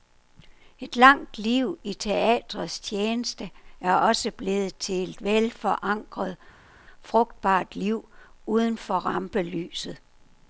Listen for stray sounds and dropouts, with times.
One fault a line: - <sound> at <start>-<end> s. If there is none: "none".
none